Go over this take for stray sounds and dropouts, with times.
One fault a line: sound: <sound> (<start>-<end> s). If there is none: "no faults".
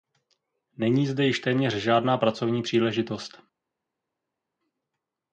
no faults